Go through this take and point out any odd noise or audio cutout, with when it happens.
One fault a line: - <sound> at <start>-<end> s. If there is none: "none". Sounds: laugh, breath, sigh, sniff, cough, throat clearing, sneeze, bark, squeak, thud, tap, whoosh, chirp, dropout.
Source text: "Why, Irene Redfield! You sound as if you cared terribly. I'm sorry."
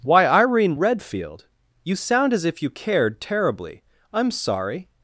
none